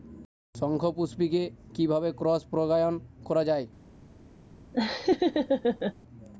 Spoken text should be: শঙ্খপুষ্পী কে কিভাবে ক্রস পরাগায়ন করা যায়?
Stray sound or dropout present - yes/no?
yes